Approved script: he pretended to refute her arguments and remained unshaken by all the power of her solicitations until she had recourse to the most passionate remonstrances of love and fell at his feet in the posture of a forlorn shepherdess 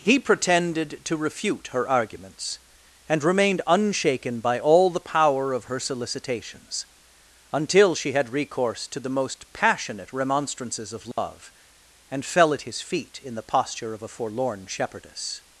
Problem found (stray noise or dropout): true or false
true